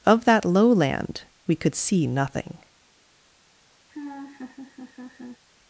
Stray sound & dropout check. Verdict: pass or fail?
fail